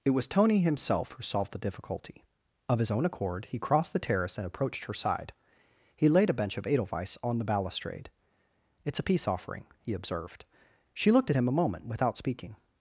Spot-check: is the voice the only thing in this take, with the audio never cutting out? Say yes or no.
yes